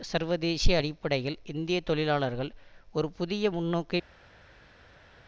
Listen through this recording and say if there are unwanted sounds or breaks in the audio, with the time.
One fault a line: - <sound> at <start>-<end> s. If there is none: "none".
none